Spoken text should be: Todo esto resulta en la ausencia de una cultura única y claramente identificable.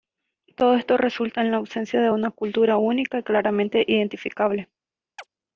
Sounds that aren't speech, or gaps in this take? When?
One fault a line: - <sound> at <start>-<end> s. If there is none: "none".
- chirp at 5.2-5.3 s